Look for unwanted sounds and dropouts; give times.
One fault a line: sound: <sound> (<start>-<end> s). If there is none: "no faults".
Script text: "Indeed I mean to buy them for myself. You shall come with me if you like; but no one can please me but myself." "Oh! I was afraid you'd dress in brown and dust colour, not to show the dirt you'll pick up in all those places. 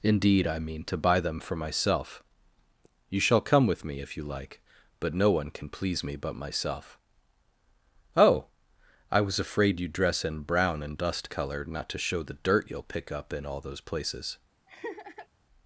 sound: laugh (14.7-15.3 s)